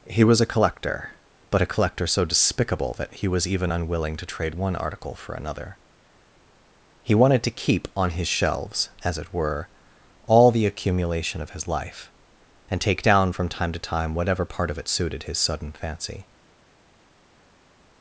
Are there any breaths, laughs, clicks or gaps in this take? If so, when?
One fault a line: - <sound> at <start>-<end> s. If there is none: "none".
none